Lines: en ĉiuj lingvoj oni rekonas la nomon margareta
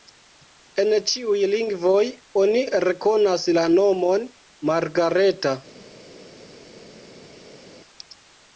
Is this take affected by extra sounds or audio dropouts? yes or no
no